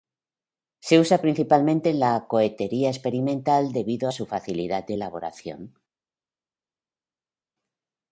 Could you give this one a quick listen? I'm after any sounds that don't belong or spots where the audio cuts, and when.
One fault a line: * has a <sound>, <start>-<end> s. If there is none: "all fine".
all fine